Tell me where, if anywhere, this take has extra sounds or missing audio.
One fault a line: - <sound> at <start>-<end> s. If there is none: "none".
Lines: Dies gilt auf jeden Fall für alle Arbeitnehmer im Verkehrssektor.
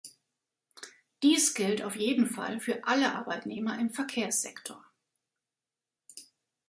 none